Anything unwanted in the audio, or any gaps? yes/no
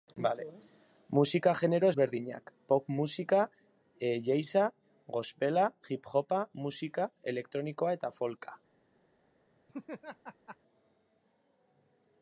yes